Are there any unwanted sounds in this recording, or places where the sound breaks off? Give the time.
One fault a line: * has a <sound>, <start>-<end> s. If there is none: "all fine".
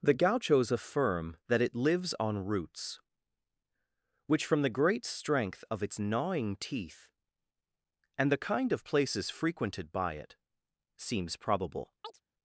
* has a chirp, 12.0-12.2 s